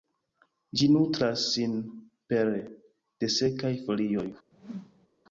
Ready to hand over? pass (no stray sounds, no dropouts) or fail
fail